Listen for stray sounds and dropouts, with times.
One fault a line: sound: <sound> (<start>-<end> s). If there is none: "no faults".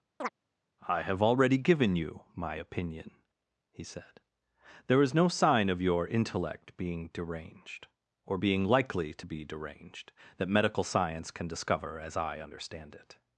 sound: chirp (0.2-0.3 s)